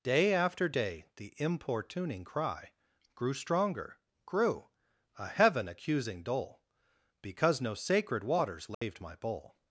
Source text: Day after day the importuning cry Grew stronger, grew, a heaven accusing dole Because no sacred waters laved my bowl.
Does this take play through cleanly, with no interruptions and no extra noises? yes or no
no